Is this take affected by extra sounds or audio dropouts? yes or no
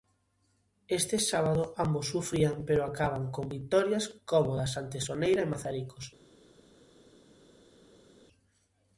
no